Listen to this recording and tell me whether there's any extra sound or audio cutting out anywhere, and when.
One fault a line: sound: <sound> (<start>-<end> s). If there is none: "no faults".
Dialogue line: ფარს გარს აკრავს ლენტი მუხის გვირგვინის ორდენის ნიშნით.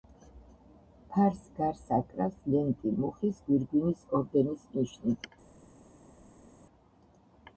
no faults